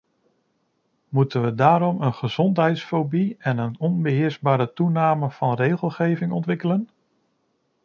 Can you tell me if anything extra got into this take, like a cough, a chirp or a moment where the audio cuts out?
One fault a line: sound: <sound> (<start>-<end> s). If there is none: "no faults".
no faults